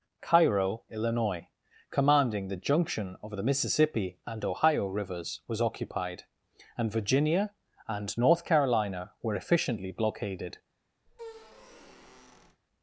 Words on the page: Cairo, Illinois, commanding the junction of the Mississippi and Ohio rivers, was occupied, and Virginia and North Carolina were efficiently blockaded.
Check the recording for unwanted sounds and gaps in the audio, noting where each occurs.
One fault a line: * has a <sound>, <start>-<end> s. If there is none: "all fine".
* has a squeak, 11.1-12.6 s